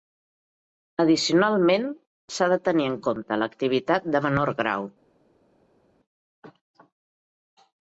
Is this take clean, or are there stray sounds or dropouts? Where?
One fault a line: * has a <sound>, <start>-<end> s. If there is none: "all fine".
all fine